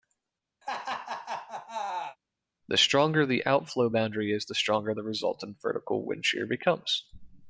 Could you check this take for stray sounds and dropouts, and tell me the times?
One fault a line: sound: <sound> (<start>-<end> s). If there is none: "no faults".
sound: laugh (0.6-2.2 s)